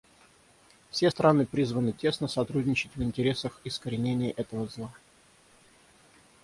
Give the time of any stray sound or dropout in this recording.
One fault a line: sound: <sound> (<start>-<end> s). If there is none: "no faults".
no faults